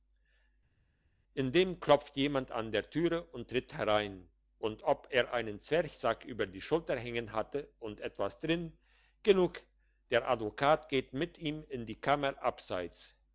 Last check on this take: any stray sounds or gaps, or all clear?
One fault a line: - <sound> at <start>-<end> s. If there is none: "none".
none